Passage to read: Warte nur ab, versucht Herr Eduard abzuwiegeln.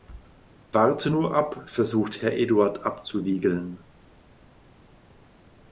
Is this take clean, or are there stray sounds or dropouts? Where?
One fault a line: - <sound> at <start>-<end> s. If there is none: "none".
none